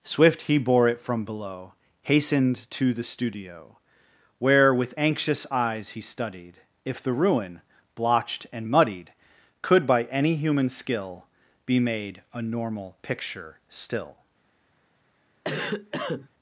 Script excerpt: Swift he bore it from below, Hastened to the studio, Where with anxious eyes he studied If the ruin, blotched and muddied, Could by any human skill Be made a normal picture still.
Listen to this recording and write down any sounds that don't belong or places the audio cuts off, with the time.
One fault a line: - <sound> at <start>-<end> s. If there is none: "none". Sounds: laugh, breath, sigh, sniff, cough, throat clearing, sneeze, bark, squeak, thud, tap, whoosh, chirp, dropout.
- cough at 15.4-16.3 s